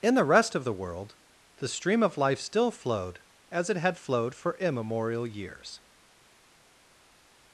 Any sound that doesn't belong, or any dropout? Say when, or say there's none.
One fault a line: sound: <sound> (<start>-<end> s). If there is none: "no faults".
no faults